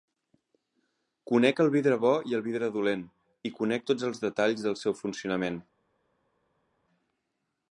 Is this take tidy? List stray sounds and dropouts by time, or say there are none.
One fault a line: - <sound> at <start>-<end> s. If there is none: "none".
none